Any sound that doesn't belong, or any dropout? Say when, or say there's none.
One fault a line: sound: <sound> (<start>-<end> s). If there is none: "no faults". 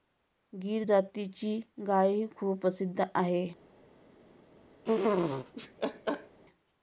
sound: laugh (4.8-6.4 s)